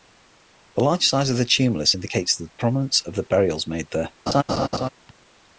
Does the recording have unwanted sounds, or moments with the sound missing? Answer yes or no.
yes